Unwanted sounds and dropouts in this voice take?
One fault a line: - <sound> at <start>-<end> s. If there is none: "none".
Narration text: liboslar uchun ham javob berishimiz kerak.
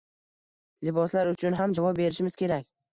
none